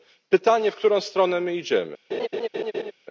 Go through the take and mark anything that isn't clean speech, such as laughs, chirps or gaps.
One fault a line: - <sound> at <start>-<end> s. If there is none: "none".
- laugh at 2.1-2.9 s